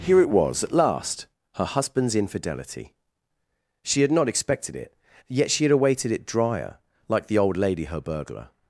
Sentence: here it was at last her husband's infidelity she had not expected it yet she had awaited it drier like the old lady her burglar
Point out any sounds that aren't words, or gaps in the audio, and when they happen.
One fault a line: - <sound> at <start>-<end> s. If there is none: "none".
none